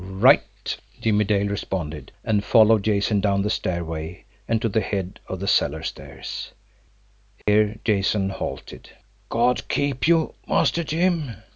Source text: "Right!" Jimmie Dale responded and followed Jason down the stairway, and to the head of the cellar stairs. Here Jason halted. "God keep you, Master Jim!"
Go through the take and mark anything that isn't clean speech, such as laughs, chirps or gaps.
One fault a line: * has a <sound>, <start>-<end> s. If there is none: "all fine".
* has a dropout, 7.4-7.5 s